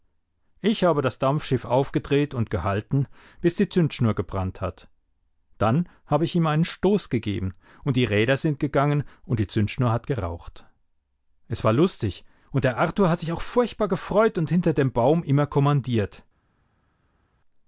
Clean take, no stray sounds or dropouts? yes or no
yes